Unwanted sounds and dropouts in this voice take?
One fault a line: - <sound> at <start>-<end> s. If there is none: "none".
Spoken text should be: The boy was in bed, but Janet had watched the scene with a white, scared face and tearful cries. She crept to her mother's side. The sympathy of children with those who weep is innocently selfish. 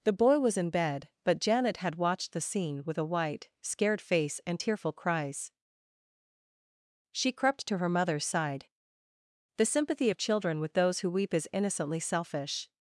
none